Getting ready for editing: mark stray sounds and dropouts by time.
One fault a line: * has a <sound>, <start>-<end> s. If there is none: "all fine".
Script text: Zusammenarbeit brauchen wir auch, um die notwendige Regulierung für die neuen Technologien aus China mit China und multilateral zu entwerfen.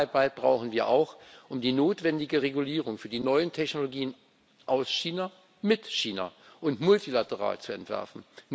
all fine